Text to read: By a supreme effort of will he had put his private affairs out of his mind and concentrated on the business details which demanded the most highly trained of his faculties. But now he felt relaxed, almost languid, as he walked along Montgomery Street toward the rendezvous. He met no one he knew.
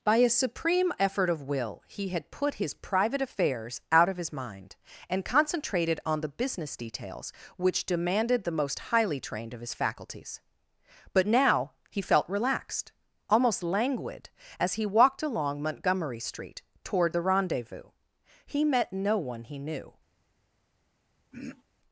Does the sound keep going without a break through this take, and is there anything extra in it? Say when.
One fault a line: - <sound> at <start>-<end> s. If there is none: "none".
- throat clearing at 21.3-21.6 s